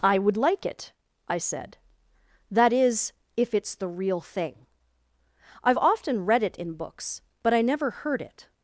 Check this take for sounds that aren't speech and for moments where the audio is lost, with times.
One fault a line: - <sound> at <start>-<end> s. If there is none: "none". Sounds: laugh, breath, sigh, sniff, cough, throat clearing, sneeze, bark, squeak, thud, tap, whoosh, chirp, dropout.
none